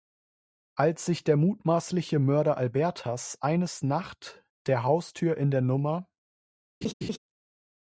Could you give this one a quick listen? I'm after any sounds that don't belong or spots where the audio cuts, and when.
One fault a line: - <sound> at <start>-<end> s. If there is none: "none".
- laugh at 6.8-7.2 s